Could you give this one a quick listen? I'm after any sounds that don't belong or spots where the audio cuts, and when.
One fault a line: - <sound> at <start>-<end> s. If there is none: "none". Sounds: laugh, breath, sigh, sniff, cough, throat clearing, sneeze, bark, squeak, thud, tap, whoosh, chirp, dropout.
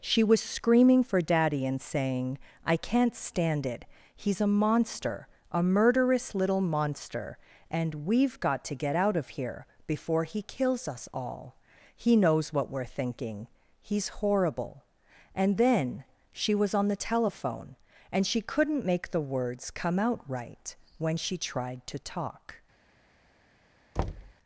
- thud at 24.0-24.3 s